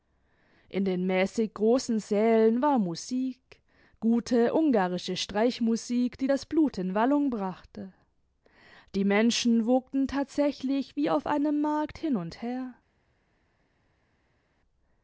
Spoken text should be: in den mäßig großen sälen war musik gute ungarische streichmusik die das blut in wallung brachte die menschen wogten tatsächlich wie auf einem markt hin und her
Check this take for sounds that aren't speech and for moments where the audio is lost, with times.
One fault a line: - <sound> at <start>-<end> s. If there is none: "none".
none